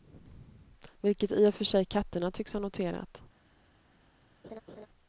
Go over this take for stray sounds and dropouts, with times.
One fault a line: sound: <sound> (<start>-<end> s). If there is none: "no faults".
sound: laugh (4.4-4.9 s)